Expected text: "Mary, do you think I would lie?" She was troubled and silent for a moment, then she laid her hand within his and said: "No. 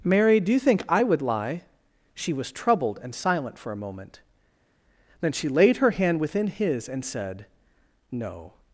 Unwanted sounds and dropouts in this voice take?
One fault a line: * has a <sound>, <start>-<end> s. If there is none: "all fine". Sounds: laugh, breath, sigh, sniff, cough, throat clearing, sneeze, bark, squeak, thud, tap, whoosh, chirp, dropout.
all fine